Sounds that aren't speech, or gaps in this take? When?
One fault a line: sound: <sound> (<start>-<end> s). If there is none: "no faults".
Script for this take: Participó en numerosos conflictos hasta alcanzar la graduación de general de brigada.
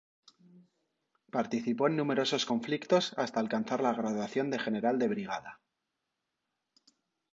no faults